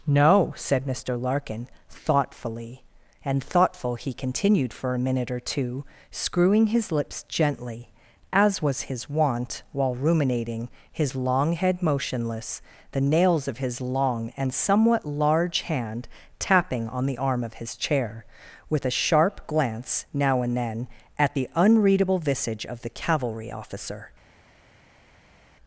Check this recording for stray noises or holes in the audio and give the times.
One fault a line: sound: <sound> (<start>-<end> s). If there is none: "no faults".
no faults